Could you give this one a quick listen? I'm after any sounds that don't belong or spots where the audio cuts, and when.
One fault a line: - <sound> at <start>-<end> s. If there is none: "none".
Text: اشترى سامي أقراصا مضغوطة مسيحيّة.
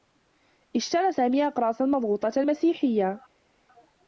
none